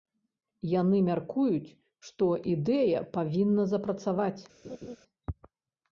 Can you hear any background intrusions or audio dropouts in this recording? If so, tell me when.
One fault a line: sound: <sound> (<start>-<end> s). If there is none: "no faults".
sound: laugh (4.6-5.0 s)